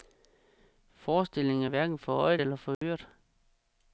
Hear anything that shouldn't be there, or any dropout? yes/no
yes